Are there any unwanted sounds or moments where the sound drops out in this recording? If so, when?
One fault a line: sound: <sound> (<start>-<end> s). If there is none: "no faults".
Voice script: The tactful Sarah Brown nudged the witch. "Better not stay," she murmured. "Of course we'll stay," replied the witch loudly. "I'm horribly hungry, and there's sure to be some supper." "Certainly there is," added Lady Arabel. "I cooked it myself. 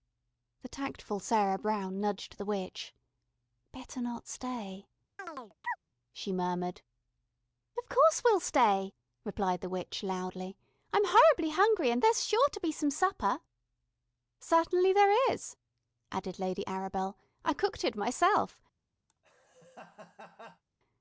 sound: chirp (5.2-5.8 s)
sound: laugh (19.1-20.6 s)